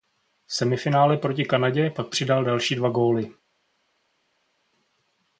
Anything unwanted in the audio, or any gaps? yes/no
no